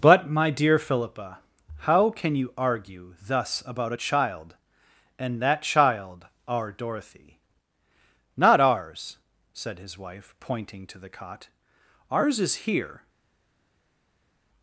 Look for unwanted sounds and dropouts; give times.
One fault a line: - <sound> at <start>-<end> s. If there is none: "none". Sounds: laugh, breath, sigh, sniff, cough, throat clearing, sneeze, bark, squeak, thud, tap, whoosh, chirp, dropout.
none